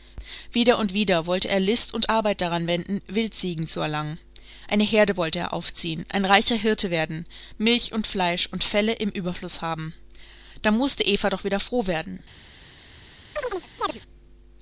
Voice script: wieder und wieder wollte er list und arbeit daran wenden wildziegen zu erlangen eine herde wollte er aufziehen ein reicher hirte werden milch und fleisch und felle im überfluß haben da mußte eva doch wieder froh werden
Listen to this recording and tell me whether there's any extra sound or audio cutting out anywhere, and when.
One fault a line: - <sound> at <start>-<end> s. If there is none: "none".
- chirp at 13.4-14.0 s